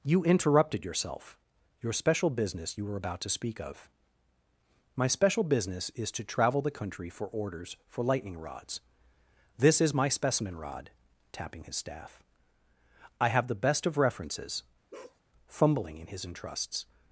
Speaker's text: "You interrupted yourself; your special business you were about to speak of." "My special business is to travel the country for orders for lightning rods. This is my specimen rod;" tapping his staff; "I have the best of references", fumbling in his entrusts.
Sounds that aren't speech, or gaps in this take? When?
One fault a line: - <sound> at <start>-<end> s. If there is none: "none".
- bark at 14.9-15.2 s